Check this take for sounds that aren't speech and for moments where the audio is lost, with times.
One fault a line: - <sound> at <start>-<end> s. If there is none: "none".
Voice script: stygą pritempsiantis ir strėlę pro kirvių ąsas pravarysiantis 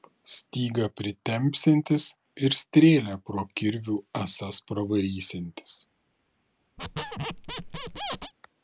- squeak at 6.8-8.3 s